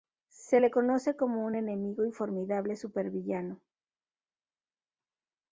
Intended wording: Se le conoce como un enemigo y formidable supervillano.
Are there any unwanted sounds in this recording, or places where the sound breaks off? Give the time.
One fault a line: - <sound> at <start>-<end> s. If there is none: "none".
none